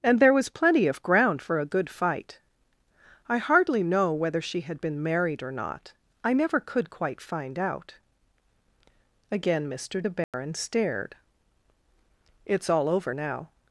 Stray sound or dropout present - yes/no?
yes